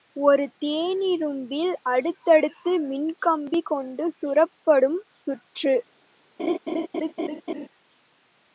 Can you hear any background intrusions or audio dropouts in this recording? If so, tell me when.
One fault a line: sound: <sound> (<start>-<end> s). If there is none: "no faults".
sound: laugh (6.4-7.7 s)